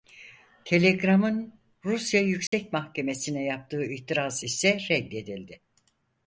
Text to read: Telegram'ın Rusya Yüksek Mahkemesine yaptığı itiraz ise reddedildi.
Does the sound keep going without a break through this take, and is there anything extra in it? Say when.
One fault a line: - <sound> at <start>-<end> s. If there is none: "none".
- dropout at 2.5-2.5 s